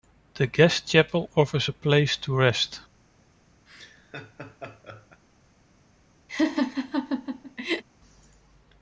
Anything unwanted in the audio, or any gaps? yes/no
yes